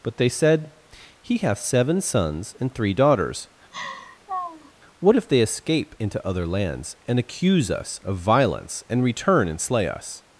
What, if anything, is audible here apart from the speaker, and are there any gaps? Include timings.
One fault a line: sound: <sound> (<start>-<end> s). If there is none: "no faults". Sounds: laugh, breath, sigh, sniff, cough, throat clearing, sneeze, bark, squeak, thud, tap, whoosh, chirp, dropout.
sound: laugh (3.7-4.7 s)